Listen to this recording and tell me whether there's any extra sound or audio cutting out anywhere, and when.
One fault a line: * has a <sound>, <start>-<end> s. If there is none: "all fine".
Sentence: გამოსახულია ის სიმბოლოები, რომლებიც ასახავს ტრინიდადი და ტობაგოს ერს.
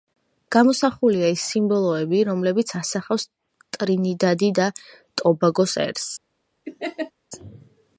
* has a laugh, 6.7-7.1 s